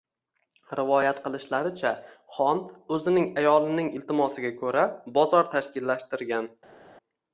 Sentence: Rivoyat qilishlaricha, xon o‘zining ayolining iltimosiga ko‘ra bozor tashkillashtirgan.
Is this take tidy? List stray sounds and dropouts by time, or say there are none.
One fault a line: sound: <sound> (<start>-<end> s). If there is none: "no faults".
no faults